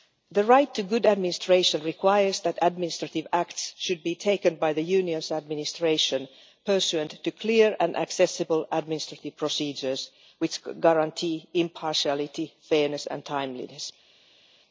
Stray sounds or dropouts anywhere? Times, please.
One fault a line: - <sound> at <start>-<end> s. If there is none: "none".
none